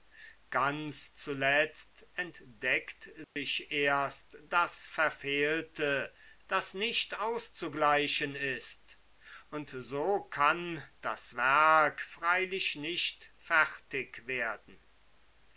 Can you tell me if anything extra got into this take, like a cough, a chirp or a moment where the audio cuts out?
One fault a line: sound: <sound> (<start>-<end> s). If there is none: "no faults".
sound: dropout (3.2-3.4 s)